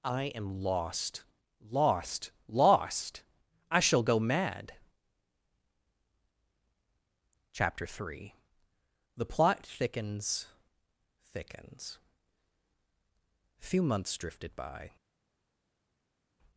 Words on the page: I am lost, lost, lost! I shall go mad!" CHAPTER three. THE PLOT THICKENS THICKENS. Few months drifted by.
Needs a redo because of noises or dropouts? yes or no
no